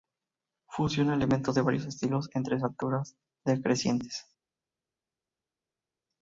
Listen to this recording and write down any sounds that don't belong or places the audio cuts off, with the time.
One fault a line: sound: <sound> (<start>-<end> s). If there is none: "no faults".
no faults